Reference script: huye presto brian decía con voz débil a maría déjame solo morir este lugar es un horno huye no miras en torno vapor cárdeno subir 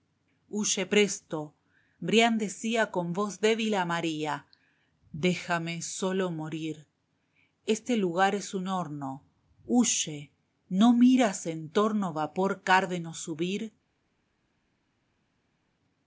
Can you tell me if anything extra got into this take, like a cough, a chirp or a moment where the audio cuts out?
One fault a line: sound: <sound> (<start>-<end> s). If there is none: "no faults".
no faults